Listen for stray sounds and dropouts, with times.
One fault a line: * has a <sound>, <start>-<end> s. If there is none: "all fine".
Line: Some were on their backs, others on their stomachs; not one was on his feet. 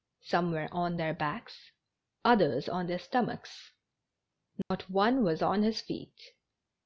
* has a dropout, 4.6-4.7 s